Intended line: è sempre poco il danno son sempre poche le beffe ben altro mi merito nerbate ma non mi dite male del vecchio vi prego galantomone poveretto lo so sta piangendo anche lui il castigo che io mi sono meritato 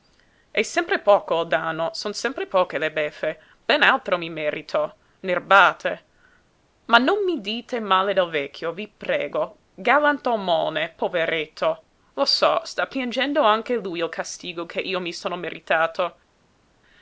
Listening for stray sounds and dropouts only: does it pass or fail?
pass